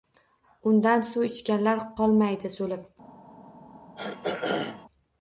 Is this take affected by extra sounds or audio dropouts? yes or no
yes